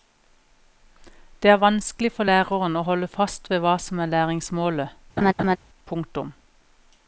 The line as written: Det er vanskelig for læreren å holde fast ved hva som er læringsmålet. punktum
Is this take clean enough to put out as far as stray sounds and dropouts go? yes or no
no